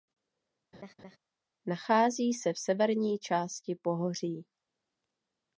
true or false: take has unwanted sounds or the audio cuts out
true